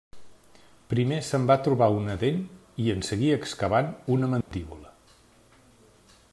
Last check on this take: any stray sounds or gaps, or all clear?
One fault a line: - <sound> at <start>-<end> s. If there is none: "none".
- dropout at 4.4-4.5 s